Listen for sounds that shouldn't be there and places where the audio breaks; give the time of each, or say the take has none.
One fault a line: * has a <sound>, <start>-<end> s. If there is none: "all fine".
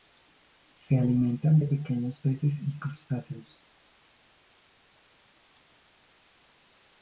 all fine